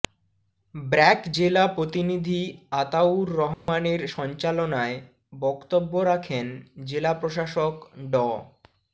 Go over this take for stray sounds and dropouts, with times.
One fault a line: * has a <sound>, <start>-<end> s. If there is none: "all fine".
* has a dropout, 3.5-3.7 s